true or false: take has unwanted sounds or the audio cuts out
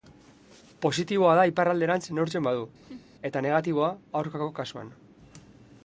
true